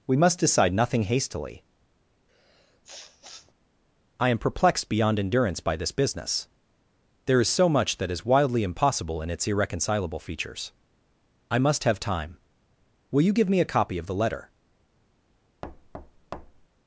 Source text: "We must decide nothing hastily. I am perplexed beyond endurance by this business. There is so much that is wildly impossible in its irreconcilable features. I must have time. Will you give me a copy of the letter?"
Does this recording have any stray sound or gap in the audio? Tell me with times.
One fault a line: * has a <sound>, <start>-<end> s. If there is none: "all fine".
* has a sniff, 2.3-3.5 s
* has a thud, 15.6-16.7 s